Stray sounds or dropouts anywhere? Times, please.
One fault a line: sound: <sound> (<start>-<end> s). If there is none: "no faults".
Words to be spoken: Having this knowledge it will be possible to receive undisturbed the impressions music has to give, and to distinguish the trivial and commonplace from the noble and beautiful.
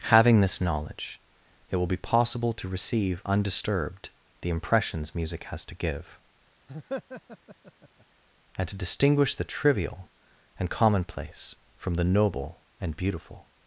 sound: laugh (6.7-8.1 s)